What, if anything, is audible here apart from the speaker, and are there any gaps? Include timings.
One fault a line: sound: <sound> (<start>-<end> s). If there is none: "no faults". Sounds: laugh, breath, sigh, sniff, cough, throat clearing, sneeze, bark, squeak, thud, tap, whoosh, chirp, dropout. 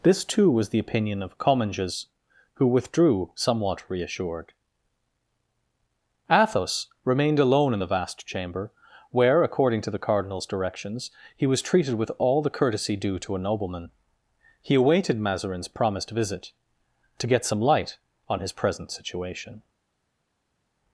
no faults